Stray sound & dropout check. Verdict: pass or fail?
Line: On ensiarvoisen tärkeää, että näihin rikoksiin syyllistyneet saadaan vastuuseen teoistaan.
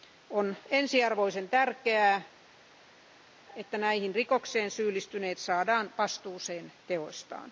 pass